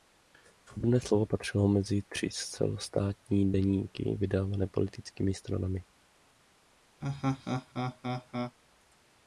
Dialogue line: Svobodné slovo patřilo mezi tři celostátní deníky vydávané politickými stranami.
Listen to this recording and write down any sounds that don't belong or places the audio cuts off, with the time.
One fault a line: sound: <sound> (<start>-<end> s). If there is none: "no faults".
sound: laugh (7.0-8.6 s)